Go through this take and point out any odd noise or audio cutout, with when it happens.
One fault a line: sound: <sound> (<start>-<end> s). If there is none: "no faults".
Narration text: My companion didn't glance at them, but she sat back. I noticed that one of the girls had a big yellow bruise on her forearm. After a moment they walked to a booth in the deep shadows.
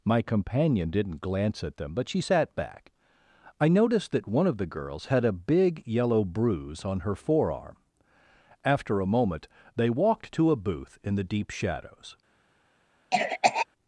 sound: cough (13.1-13.7 s)